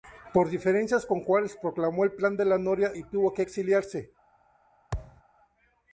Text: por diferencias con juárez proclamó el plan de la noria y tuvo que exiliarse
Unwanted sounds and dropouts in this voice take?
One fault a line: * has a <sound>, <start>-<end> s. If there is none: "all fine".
* has a thud, 4.9-5.2 s